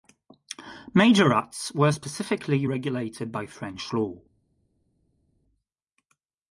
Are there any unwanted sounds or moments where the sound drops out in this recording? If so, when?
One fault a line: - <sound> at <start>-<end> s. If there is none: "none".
none